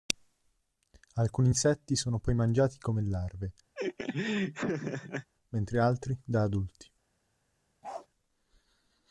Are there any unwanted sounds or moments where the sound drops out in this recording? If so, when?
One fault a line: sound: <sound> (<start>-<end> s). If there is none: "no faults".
sound: laugh (3.7-5.3 s)
sound: bark (7.8-8.1 s)